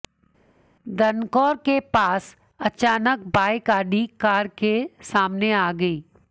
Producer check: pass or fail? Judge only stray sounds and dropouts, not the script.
pass